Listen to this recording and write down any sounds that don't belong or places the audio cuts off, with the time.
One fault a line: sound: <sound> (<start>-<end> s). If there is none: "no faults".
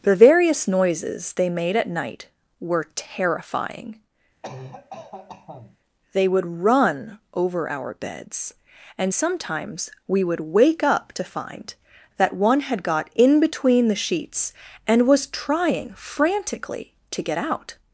sound: cough (4.4-5.8 s)